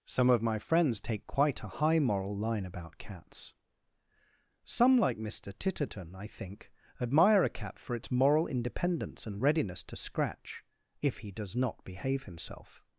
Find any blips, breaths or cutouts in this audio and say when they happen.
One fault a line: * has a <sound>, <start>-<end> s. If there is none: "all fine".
all fine